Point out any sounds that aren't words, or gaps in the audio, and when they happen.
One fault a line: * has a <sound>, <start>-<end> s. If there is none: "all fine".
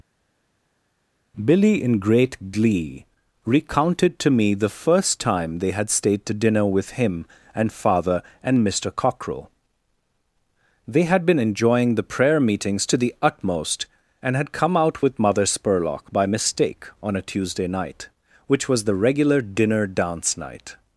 all fine